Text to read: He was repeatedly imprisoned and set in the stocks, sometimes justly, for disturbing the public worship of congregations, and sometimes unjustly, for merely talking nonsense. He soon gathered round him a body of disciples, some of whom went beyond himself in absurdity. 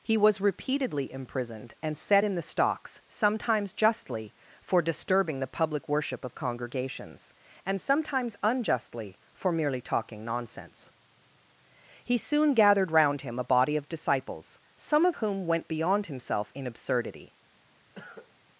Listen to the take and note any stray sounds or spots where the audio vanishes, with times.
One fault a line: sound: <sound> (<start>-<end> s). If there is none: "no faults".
sound: cough (17.9-18.3 s)